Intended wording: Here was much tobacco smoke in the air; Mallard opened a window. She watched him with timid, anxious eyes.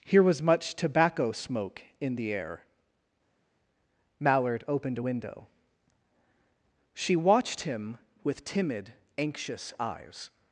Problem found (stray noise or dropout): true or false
false